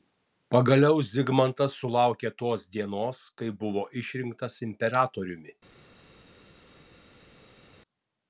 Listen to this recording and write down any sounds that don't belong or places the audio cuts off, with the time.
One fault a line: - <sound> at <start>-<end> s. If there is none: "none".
none